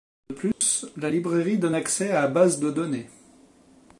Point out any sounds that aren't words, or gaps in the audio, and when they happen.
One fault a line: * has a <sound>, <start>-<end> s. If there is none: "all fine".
* has a dropout, 0.5-0.6 s